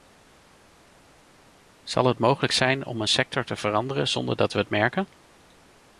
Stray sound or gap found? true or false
false